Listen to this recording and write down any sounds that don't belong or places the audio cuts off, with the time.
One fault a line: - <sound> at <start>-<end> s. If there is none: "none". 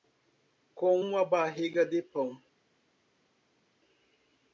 none